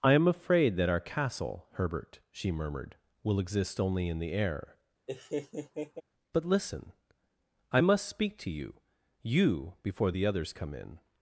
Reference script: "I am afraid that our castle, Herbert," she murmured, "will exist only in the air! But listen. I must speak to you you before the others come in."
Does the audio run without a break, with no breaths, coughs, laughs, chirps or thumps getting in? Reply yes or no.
no